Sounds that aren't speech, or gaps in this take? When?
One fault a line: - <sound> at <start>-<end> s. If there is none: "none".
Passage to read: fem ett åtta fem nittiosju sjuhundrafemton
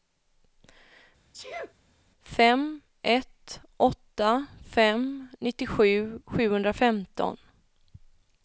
- sneeze at 1.3-1.7 s